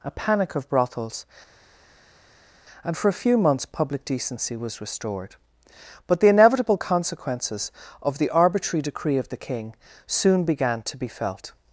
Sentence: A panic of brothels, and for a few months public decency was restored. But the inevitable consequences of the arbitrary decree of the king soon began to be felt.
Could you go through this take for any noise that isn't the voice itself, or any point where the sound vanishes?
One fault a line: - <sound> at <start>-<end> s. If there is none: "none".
none